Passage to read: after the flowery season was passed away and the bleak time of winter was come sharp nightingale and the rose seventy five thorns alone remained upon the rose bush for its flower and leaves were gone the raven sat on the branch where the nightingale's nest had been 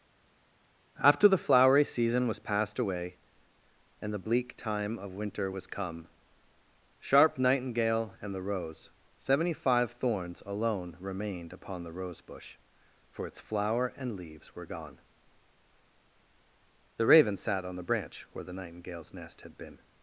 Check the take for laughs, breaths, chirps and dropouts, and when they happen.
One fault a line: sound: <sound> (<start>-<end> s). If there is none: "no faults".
no faults